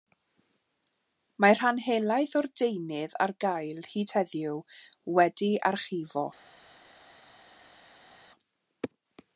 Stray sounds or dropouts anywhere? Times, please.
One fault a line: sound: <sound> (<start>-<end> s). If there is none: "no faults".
no faults